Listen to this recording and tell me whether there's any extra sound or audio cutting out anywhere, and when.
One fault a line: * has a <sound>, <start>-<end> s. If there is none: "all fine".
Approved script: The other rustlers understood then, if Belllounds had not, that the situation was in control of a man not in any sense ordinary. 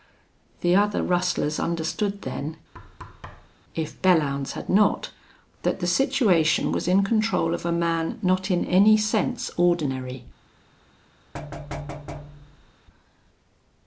* has a thud, 2.7-3.6 s
* has a thud, 11.3-12.7 s